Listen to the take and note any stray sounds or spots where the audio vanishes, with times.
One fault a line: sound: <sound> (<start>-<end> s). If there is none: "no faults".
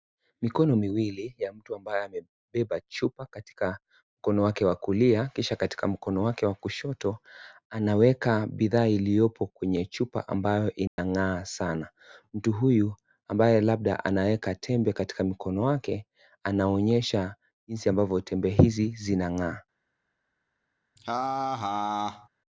sound: dropout (10.9-11.0 s)
sound: laugh (21.0-22.3 s)